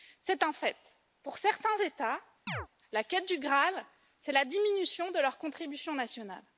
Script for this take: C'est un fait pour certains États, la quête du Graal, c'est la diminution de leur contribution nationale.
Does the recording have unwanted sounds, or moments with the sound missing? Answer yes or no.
yes